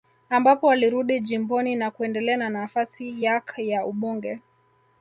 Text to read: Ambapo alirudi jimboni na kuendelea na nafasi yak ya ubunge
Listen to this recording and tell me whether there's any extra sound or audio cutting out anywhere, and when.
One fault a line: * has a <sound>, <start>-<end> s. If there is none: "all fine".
all fine